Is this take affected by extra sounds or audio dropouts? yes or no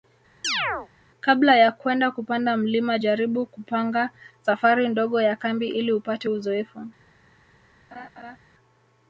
yes